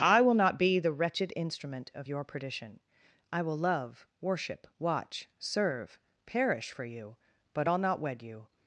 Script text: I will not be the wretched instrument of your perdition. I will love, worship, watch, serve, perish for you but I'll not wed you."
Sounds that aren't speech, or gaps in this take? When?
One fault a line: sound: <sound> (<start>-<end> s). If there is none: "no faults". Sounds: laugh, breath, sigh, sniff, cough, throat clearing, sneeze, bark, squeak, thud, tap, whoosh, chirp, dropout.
no faults